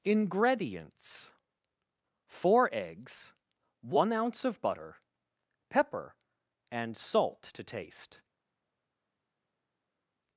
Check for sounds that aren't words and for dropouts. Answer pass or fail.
pass